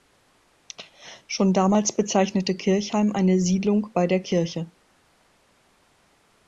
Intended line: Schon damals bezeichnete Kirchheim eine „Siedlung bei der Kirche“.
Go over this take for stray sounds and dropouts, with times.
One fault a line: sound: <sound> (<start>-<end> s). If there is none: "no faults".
no faults